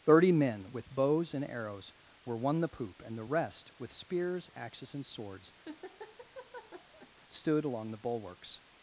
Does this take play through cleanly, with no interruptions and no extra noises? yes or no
no